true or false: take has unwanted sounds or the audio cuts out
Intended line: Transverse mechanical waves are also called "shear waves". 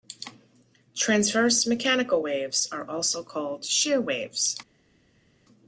false